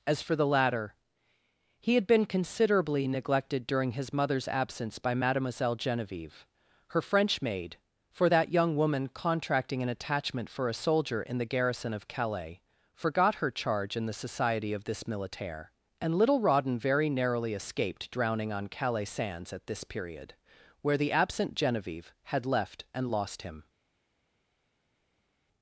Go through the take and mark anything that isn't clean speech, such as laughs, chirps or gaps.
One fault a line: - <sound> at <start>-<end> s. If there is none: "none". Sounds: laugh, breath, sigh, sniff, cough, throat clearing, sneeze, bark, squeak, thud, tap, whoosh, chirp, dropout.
none